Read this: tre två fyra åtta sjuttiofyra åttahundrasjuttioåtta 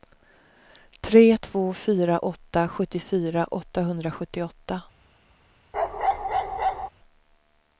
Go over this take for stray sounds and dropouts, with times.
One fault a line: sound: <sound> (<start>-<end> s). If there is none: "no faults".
sound: bark (5.7-6.9 s)